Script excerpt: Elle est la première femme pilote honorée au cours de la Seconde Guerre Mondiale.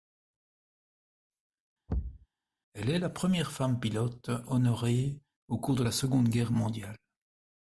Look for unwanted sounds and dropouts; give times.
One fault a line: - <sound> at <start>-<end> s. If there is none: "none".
- thud at 1.9-2.3 s